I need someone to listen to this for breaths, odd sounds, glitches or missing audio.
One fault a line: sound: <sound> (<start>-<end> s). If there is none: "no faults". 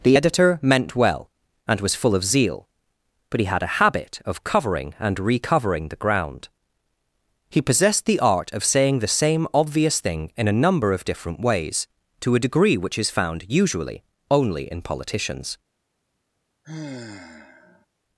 sound: sigh (16.6-17.9 s)